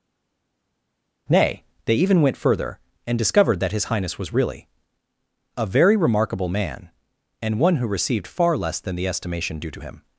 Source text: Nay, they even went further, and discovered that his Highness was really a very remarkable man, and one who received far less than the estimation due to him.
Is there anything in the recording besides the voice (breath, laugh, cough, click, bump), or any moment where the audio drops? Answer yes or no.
no